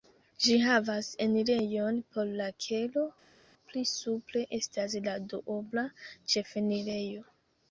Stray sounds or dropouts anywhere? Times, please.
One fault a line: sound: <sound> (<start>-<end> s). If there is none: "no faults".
no faults